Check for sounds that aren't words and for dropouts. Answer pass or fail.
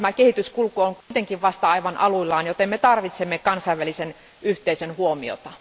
fail